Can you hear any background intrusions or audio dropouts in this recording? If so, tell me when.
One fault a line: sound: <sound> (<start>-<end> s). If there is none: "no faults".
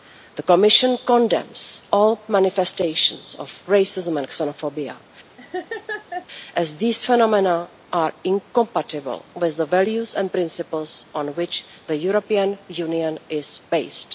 sound: laugh (5.4-6.3 s)